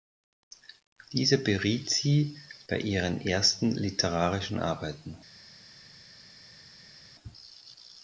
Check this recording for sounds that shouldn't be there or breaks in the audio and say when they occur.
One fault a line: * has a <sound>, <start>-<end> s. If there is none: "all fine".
all fine